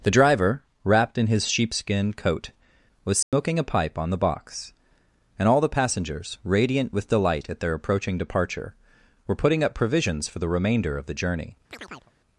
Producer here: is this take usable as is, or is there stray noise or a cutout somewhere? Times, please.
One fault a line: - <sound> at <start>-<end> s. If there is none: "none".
- dropout at 3.2-3.3 s
- chirp at 11.7-12.1 s